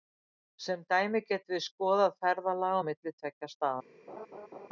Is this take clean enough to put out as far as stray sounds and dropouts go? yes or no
no